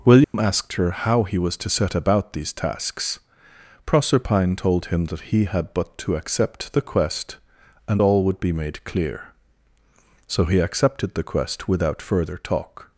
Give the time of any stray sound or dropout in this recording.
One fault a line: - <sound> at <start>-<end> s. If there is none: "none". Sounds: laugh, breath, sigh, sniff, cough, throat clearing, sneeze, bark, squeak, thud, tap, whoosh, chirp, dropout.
- dropout at 0.2-0.3 s